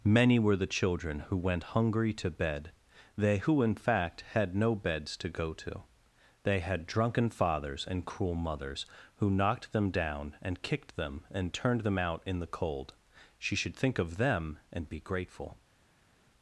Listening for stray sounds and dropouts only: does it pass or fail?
pass